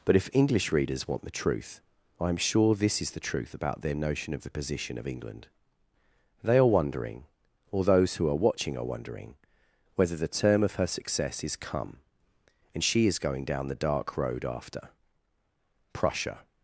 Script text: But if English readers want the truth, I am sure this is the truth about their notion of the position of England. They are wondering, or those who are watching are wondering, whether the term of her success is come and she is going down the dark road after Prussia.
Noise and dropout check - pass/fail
pass